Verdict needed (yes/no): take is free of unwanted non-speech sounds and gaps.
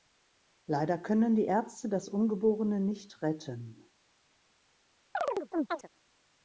no